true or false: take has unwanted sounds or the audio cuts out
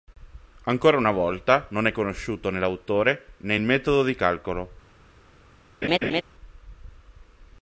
true